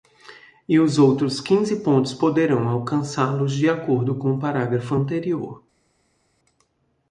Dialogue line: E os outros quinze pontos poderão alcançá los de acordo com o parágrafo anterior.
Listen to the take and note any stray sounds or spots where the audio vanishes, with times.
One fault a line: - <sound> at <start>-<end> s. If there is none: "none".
none